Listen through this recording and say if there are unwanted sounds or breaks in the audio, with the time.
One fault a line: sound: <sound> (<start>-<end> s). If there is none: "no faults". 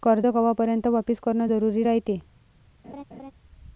sound: laugh (2.8-3.3 s)